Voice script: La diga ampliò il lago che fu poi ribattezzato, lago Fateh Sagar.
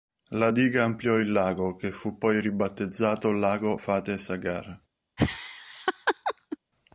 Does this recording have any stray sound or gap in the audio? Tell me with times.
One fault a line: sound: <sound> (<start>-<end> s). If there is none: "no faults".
sound: laugh (5.2-6.6 s)